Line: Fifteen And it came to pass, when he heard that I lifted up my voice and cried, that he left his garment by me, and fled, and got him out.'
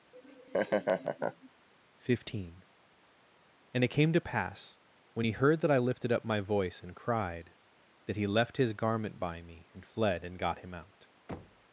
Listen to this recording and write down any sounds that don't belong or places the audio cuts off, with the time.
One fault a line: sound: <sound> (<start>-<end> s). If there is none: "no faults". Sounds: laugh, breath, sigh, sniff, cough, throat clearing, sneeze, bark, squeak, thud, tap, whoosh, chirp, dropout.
sound: laugh (0.1-1.5 s)
sound: thud (11.3-11.7 s)